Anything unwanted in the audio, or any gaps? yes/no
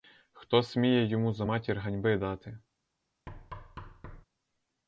yes